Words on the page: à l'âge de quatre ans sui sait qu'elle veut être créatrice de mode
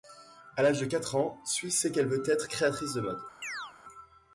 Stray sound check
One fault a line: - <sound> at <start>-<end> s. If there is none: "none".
- chirp at 3.4-3.7 s